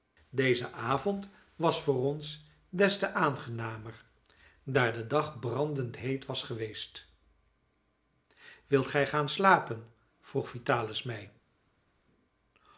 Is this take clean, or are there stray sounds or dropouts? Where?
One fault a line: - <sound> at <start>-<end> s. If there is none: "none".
none